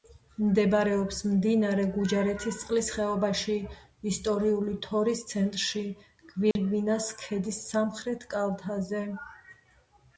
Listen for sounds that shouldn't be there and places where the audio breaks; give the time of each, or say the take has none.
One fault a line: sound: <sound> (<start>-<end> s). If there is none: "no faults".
sound: dropout (6.5-6.6 s)